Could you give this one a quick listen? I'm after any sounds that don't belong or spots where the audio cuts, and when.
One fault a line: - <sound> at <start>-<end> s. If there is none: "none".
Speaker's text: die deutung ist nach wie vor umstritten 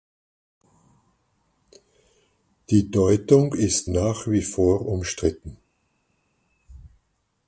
none